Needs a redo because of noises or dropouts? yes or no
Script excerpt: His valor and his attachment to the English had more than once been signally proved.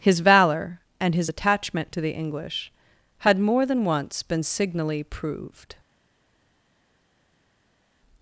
no